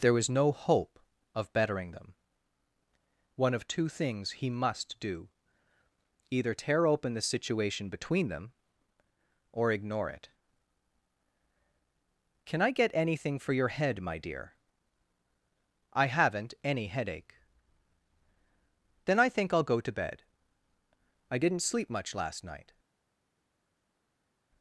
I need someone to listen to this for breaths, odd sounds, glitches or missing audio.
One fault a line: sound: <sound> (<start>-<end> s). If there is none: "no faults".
no faults